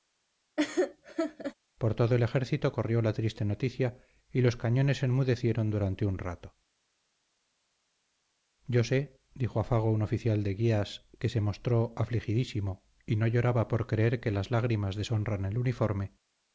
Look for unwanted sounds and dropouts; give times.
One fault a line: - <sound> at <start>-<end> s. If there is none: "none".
- laugh at 0.6-1.5 s